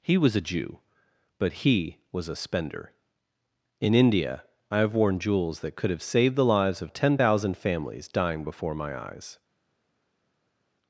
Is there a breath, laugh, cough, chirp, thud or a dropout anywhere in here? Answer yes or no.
no